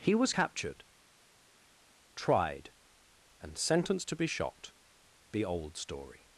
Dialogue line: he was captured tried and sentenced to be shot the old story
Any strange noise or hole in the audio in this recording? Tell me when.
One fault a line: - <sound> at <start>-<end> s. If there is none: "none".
none